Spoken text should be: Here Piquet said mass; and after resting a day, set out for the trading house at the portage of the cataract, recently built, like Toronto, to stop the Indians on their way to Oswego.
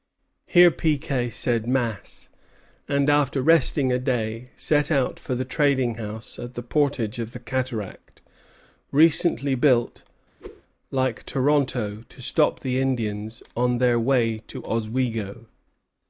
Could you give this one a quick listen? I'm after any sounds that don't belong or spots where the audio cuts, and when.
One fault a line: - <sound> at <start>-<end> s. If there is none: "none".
- whoosh at 10.4-10.6 s